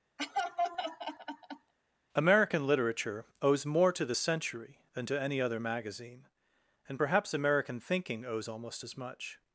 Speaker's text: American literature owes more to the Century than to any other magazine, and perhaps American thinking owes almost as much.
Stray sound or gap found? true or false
true